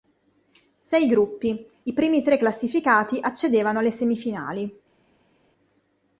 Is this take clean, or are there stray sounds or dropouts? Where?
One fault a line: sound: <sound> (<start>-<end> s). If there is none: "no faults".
no faults